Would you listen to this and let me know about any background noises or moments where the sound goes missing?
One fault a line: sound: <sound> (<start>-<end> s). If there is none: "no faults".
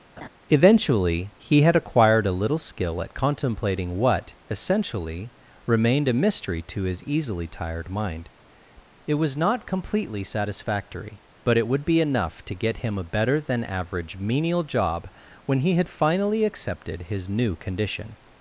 sound: laugh (0.2-0.3 s)